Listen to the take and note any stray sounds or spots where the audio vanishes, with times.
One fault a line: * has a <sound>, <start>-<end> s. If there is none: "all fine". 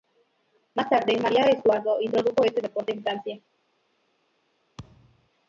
* has a thud, 4.8-5.3 s